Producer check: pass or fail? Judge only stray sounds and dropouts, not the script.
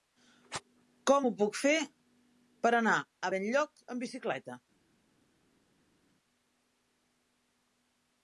pass